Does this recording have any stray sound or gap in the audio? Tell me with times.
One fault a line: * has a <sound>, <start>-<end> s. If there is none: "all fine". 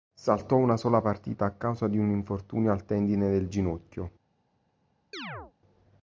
* has a chirp, 5.1-5.5 s